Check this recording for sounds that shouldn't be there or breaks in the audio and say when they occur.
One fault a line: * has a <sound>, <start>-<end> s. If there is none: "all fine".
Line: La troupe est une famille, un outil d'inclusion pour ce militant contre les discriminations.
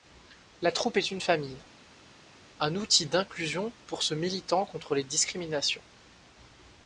all fine